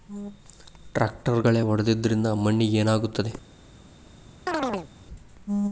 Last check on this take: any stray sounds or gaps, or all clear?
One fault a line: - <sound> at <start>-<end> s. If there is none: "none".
- chirp at 4.5-4.9 s